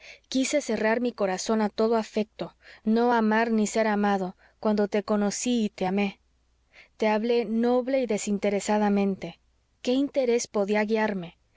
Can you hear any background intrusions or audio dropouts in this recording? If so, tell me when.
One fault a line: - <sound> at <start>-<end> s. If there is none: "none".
none